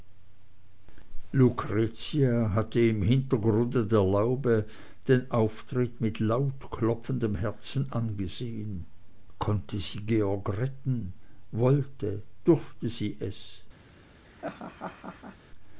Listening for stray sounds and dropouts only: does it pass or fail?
fail